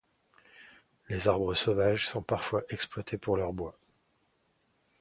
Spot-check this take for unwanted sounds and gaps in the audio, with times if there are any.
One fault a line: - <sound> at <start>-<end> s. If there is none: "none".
none